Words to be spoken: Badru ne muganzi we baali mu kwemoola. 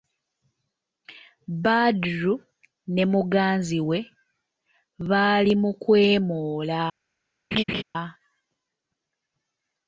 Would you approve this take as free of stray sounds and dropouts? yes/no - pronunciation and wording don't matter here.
no